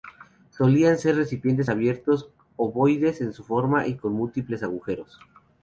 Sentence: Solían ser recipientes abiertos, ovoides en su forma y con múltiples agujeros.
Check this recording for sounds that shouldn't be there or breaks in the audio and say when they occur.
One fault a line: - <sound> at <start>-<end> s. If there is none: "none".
none